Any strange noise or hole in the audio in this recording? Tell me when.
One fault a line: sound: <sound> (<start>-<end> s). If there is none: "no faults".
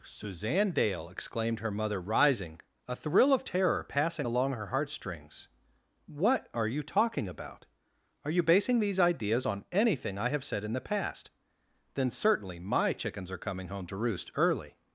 no faults